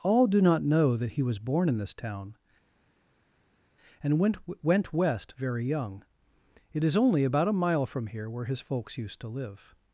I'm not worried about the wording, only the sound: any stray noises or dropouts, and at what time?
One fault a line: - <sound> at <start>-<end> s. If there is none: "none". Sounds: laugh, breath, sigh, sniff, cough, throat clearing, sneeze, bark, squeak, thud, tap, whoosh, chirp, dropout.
none